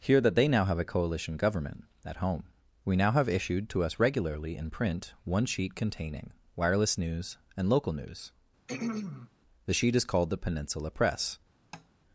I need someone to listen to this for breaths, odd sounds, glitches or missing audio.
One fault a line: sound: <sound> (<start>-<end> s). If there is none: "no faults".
sound: throat clearing (8.7-9.3 s)
sound: tap (11.7-11.9 s)